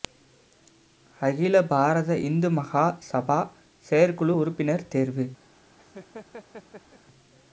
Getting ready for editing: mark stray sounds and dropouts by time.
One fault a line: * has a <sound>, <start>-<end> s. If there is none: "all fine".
* has a laugh, 5.8-7.0 s